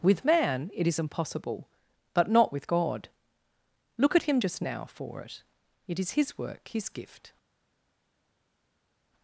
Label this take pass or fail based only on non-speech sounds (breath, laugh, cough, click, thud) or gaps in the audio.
pass